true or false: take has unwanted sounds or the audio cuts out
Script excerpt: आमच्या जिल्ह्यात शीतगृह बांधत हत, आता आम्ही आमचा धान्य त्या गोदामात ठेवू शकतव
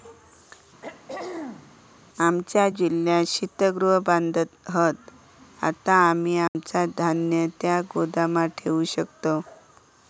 true